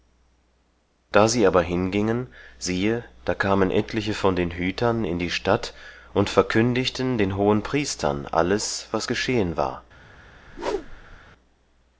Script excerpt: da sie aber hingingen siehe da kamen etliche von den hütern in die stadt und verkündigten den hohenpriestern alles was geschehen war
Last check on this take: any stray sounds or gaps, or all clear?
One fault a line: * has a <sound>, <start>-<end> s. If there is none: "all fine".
* has a whoosh, 10.5-11.2 s